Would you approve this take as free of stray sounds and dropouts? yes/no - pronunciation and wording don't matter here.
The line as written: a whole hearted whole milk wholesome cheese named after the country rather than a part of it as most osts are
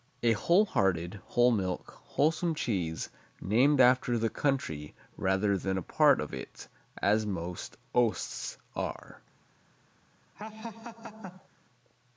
no